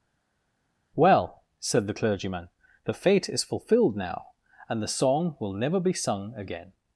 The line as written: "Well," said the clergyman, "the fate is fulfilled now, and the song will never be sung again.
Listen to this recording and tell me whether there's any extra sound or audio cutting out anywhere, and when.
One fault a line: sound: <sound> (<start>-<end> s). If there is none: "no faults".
no faults